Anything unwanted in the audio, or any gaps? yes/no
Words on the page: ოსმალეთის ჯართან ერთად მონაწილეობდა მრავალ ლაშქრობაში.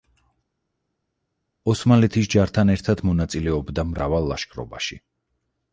no